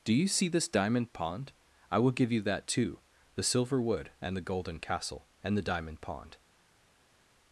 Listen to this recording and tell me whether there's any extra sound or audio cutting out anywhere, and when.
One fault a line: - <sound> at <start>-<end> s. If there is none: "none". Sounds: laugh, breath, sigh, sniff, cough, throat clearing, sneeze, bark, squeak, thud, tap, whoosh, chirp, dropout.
none